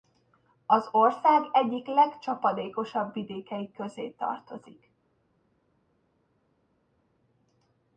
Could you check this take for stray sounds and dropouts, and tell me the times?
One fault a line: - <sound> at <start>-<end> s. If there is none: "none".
none